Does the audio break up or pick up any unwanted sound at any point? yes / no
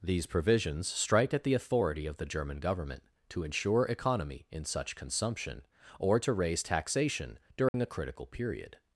yes